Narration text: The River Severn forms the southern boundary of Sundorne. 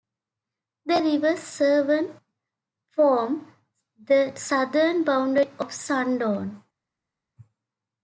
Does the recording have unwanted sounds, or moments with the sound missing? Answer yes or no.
no